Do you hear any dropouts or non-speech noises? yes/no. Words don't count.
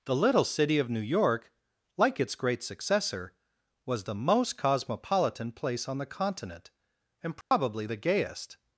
yes